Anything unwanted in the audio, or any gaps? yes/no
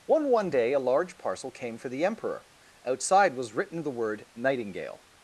no